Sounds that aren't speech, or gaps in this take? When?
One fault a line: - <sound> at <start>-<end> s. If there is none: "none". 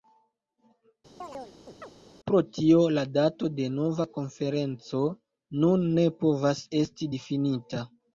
- chirp at 1.2-1.9 s